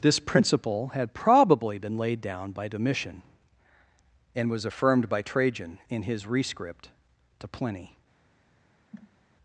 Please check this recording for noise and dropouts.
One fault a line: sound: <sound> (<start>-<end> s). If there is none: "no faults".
sound: cough (8.9-9.2 s)